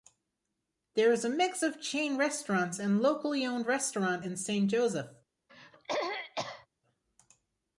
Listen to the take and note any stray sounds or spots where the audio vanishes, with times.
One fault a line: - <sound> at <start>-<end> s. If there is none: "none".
- throat clearing at 5.5-6.7 s